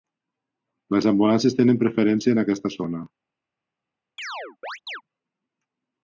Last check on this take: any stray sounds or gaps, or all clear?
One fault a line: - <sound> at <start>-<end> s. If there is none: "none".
- chirp at 4.2-5.0 s